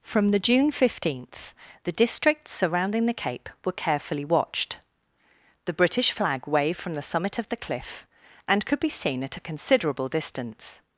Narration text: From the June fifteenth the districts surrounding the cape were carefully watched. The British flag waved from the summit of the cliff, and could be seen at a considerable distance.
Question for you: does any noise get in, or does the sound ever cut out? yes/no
no